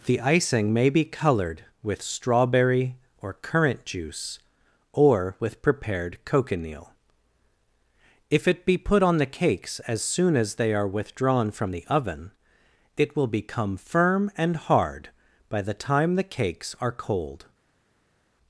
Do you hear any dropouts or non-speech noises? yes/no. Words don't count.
no